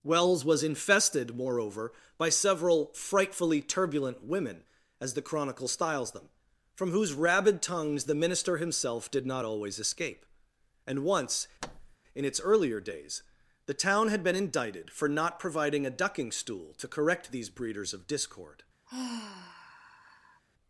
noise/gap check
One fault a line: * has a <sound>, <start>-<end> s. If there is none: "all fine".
* has a thud, 11.6-12.0 s
* has a sigh, 18.9-20.4 s